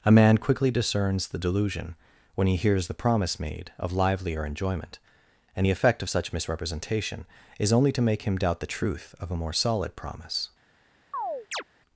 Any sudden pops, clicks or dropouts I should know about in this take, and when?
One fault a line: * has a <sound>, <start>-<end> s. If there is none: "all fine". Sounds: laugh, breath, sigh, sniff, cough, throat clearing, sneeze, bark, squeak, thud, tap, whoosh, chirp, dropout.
* has a chirp, 11.1-11.6 s